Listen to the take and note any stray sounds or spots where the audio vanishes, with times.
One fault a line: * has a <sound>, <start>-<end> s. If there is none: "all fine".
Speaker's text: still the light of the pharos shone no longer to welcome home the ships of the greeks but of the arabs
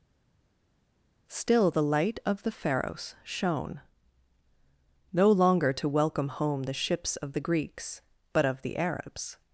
all fine